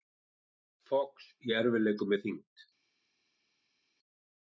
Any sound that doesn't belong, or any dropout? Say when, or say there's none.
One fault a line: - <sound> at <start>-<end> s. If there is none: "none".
none